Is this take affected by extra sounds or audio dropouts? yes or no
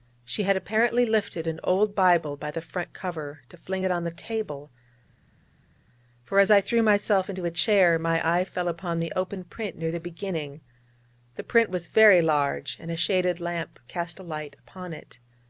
no